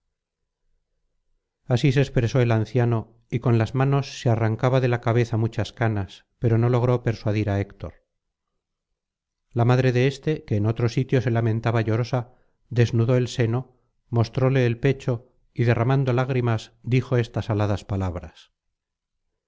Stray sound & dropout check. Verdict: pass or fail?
pass